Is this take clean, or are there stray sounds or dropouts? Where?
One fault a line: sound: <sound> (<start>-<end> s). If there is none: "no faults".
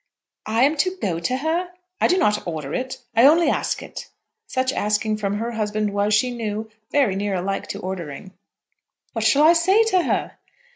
no faults